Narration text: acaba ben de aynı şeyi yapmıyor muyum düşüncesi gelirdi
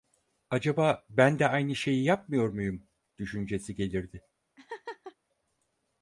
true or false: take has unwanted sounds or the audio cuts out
true